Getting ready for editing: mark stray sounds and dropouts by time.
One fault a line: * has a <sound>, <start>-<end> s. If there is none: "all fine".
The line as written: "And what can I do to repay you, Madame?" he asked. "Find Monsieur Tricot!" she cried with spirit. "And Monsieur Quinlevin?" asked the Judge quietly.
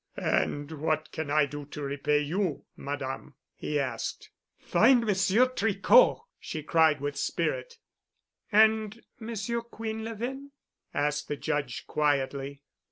all fine